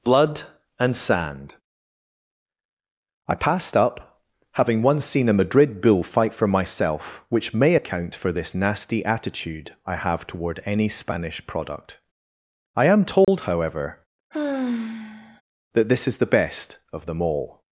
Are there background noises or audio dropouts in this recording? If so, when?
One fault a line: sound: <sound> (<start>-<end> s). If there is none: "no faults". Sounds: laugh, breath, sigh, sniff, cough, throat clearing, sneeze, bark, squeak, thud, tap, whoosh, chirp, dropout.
sound: dropout (13.2-13.3 s)
sound: sigh (14.3-15.4 s)